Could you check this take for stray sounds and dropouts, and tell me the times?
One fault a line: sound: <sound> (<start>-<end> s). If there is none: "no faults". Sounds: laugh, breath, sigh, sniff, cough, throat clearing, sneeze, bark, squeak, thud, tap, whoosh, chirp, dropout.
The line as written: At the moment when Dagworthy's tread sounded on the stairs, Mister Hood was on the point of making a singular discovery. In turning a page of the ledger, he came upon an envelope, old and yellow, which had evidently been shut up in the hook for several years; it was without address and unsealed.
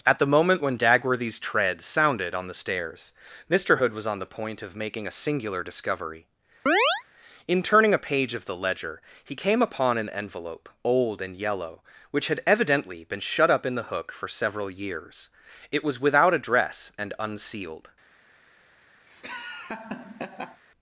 sound: chirp (6.7-7.0 s)
sound: laugh (19.1-20.6 s)